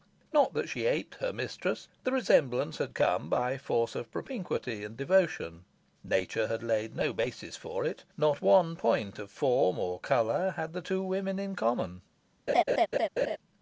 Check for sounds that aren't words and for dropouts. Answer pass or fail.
fail